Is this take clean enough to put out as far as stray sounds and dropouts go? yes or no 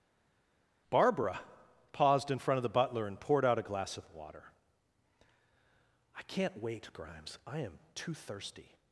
yes